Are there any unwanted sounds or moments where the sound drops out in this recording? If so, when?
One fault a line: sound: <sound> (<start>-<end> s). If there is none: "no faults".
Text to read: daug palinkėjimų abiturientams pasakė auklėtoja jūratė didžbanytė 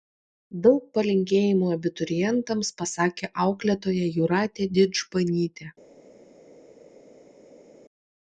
no faults